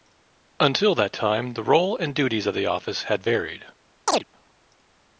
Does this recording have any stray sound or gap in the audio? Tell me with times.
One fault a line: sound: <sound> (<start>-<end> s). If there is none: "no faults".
sound: chirp (4.1-4.2 s)